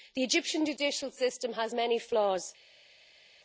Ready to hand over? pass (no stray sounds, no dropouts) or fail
pass